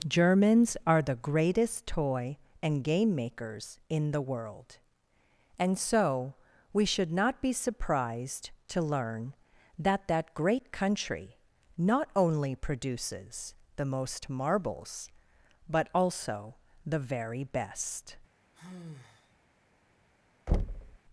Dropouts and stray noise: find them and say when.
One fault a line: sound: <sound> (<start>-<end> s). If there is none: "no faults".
sound: sigh (18.5-19.4 s)
sound: thud (20.5-21.0 s)